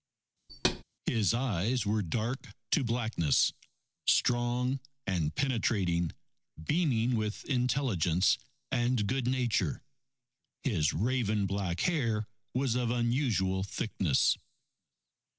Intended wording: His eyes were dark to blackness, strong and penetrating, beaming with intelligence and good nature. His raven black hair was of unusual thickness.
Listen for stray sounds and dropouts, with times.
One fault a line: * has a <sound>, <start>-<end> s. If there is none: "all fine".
* has a thud, 0.5-0.8 s